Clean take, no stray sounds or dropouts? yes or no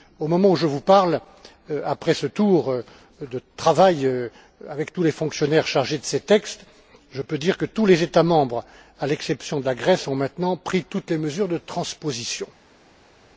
yes